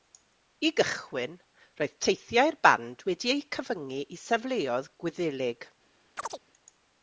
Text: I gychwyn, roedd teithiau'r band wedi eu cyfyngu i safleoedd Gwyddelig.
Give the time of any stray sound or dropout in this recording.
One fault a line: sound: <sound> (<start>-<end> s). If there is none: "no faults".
sound: chirp (6.2-6.4 s)